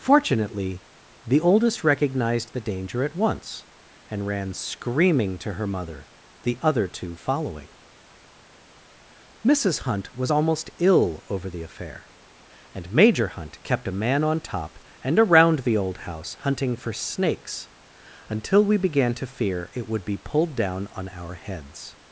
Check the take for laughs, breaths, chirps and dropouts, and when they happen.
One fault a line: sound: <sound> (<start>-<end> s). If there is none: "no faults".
no faults